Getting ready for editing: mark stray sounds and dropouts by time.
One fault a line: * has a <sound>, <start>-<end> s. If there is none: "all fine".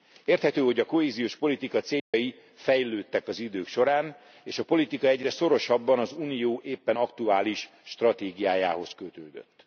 * has a dropout, 2.0-2.1 s